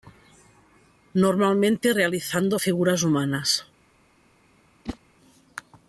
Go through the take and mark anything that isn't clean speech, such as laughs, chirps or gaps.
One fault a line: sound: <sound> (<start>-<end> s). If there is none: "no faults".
sound: whoosh (4.8-5.0 s)